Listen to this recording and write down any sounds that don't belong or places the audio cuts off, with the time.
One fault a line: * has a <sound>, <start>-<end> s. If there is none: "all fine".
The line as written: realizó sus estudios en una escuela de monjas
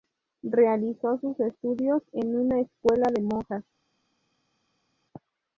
all fine